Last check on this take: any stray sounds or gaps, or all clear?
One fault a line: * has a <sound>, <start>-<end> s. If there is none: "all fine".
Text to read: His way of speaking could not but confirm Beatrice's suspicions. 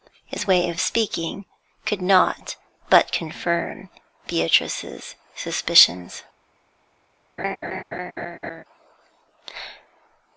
* has a laugh, 7.4-8.6 s